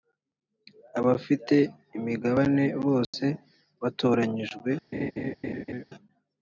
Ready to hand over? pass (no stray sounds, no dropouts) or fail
fail